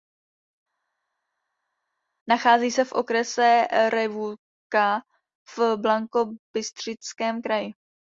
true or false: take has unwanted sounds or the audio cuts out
false